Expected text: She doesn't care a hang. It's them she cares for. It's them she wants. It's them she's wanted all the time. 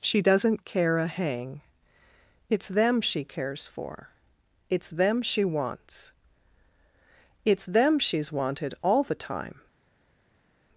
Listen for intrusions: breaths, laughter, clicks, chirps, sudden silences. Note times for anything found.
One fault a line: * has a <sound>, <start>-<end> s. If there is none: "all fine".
all fine